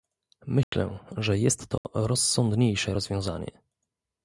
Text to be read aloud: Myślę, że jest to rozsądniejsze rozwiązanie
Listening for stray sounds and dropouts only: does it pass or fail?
fail